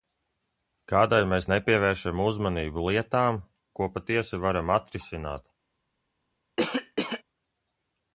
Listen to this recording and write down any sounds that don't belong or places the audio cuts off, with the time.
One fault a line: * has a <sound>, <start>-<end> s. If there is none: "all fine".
* has a cough, 6.6-7.2 s